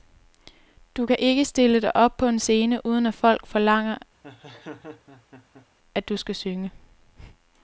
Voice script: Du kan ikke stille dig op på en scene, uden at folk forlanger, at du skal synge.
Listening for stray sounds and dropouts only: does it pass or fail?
fail